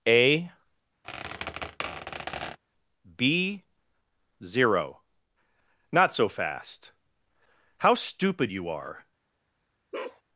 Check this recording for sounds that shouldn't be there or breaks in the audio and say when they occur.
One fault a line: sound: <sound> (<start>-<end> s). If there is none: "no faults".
sound: squeak (1.0-2.6 s)
sound: bark (9.9-10.2 s)